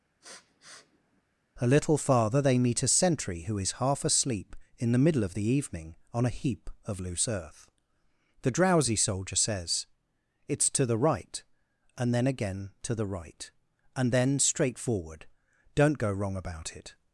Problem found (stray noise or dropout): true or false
true